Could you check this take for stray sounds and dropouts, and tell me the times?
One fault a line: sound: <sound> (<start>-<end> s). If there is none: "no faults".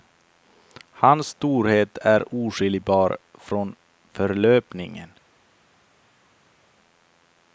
no faults